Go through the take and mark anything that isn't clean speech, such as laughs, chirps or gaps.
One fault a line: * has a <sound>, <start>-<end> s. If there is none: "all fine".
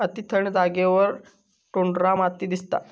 all fine